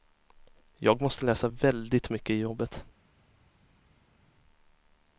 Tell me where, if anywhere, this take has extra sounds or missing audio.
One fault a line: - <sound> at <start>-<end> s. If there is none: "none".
none